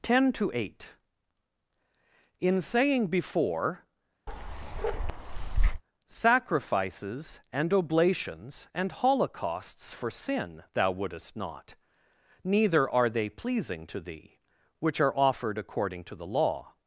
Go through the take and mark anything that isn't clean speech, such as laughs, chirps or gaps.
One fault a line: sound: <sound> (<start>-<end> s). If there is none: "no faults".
sound: bark (4.3-5.8 s)